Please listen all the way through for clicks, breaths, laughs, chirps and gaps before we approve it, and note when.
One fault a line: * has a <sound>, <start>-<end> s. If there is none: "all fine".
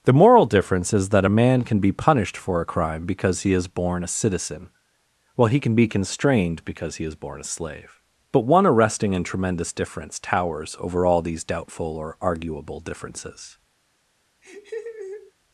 * has a laugh, 14.4-15.3 s